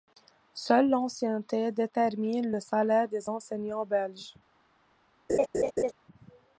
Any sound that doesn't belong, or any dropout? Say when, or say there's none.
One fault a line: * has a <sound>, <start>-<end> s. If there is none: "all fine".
* has a laugh, 5.3-5.9 s